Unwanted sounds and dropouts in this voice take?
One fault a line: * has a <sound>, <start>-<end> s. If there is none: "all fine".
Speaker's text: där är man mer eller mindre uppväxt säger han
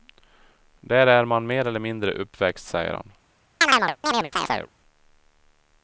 * has a chirp, 3.6-4.7 s